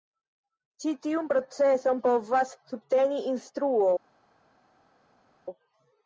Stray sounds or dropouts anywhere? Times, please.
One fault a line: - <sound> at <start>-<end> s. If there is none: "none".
none